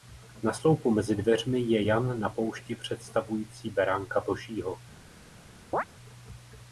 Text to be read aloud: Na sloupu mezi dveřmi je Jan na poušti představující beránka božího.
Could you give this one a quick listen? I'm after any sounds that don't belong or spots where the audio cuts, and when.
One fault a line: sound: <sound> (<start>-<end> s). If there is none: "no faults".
sound: chirp (5.7-5.8 s)